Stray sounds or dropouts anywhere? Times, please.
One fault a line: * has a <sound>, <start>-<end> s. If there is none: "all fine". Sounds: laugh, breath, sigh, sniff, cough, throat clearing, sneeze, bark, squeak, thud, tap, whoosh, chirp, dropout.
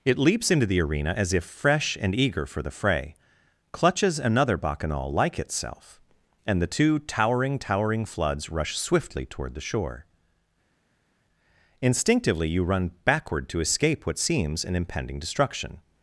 all fine